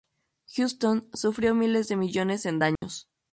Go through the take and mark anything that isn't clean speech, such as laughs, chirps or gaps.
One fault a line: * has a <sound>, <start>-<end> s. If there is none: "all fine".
* has a dropout, 2.8-2.8 s